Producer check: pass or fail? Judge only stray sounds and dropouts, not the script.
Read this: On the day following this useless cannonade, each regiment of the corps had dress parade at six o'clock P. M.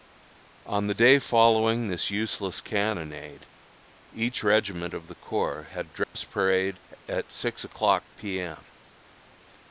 fail